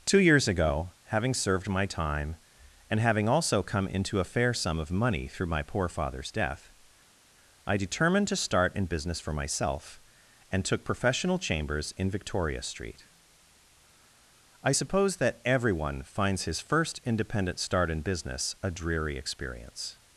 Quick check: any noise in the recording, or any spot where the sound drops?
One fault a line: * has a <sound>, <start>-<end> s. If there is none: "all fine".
all fine